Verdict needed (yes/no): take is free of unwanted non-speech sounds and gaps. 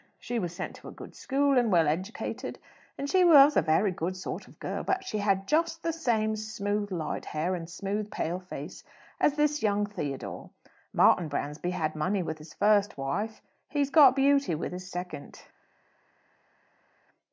yes